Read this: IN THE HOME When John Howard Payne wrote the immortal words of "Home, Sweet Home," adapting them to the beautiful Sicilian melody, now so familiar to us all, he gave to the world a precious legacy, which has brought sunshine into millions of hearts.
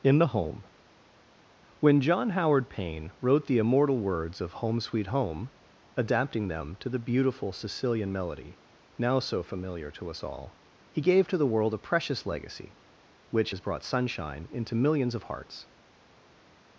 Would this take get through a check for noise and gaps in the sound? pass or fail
pass